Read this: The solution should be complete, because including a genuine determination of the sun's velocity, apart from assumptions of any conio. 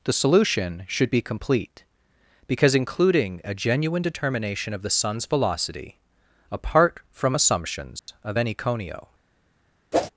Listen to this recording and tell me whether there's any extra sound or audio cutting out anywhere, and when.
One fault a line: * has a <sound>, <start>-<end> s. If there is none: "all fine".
* has a dropout, 8.0-8.1 s
* has a whoosh, 9.9-10.1 s